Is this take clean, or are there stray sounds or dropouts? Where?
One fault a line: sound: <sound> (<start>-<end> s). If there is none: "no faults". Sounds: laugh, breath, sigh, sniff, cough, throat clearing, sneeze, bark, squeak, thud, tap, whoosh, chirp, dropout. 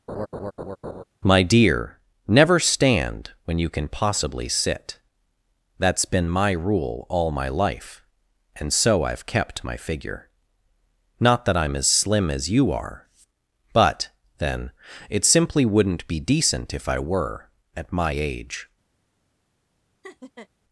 sound: laugh (0.1-1.0 s)
sound: laugh (20.0-20.5 s)